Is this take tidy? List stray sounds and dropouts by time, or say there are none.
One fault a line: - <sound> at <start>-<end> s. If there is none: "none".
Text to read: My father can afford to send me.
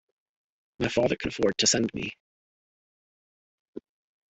none